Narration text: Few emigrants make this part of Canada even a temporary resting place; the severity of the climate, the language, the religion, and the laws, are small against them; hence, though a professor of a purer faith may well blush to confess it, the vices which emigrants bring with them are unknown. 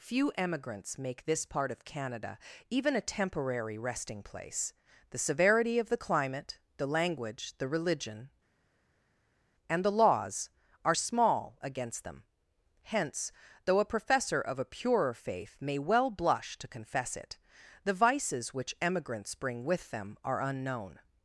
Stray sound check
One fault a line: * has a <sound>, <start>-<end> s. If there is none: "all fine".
all fine